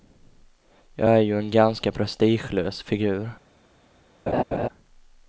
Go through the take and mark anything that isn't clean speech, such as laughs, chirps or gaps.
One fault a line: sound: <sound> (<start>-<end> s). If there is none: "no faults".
sound: laugh (4.3-4.7 s)